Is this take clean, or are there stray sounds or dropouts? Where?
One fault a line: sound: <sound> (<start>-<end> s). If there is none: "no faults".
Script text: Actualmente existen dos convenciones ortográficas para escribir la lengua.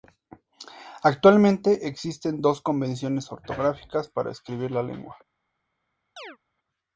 sound: chirp (6.2-6.4 s)